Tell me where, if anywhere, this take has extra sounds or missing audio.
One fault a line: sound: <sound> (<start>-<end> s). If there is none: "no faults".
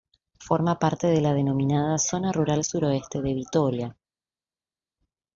no faults